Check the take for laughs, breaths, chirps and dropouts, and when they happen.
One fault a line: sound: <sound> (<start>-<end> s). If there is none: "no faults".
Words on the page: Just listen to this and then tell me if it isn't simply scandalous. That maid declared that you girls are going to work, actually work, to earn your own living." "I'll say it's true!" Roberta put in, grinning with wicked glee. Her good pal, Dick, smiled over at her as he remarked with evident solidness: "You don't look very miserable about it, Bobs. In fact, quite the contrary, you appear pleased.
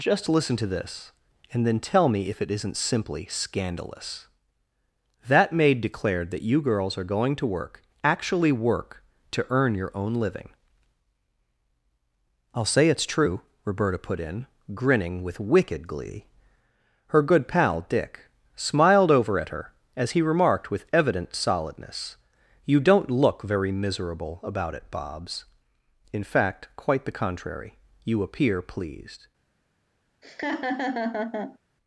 sound: laugh (30.2-31.6 s)